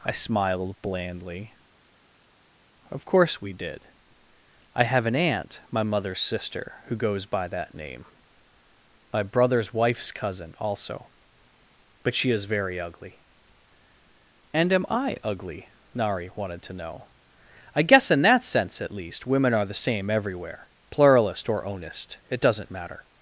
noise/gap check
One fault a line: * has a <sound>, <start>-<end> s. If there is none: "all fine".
all fine